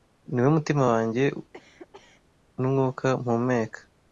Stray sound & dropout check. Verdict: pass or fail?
fail